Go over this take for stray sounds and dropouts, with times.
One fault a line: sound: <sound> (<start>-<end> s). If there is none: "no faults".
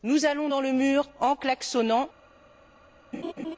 sound: laugh (3.1-3.6 s)